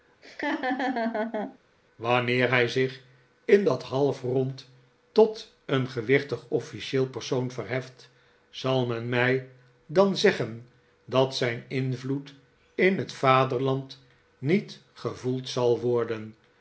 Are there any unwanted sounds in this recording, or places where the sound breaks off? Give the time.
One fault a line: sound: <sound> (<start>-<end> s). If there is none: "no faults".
sound: laugh (0.2-1.6 s)